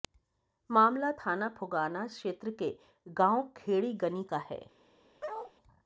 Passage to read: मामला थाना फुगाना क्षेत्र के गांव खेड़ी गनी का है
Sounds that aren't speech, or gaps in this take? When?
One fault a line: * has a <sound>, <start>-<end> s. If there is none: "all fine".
* has a bark, 5.2-5.5 s